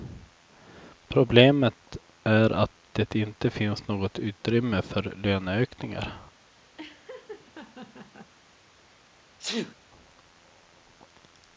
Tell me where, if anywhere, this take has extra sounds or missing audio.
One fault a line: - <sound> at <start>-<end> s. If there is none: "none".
- laugh at 6.8-8.3 s
- sneeze at 9.4-9.7 s